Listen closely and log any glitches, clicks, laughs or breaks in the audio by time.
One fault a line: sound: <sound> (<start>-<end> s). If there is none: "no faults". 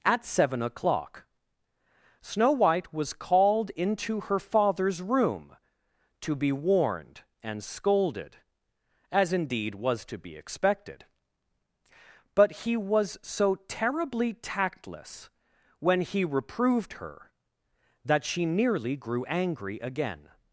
no faults